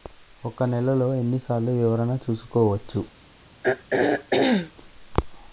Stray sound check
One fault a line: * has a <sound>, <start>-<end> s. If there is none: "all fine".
* has a throat clearing, 3.6-4.7 s